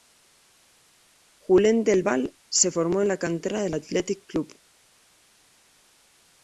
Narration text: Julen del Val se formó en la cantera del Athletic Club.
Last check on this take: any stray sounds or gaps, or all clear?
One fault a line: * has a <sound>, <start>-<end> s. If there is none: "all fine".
all fine